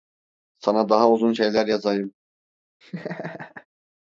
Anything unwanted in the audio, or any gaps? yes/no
yes